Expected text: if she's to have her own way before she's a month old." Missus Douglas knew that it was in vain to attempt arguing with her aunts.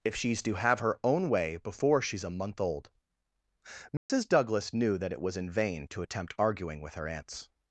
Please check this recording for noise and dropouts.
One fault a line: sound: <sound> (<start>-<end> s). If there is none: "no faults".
sound: dropout (4.0-4.1 s)